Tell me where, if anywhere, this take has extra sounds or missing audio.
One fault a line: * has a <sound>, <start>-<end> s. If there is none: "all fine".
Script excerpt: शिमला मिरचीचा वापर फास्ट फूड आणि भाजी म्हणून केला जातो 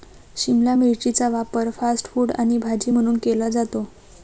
all fine